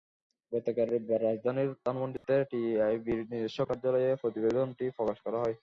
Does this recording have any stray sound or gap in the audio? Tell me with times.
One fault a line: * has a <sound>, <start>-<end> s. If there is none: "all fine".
* has a dropout, 2.2-2.2 s